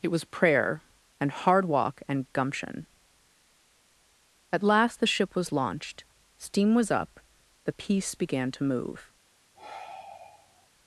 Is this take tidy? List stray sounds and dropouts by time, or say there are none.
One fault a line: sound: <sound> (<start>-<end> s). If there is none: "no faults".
sound: sigh (9.5-10.7 s)